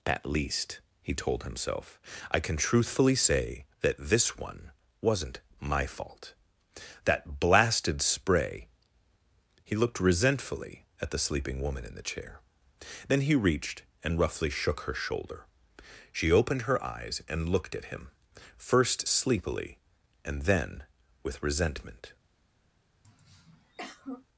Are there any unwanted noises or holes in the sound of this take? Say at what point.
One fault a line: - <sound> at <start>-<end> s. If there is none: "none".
- throat clearing at 23.0-24.3 s